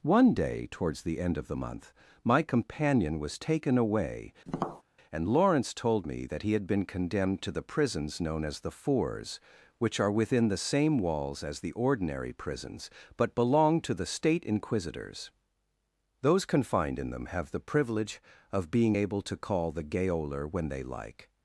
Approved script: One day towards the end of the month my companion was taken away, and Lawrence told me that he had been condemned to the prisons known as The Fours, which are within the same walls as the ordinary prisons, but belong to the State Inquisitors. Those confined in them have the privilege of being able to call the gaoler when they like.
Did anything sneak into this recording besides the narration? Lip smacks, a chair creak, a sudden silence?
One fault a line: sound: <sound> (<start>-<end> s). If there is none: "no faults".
sound: tap (4.5-4.8 s)